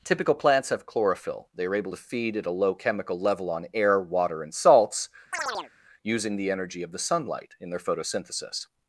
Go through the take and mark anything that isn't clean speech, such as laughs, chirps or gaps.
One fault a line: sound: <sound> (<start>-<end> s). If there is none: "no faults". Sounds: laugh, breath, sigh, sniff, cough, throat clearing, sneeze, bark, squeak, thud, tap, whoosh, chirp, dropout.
sound: chirp (5.3-5.7 s)